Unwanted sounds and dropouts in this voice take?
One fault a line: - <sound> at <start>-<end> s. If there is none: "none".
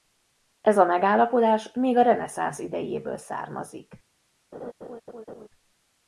- laugh at 4.5-5.5 s